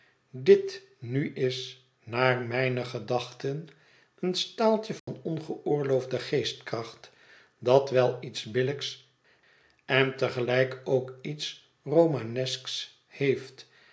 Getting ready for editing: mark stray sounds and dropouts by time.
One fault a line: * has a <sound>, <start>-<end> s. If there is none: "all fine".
* has a dropout, 5.0-5.1 s